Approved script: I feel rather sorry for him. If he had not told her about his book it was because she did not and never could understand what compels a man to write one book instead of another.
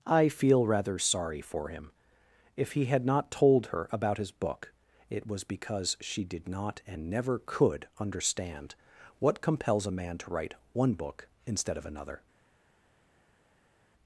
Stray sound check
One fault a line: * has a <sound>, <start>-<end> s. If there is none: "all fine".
all fine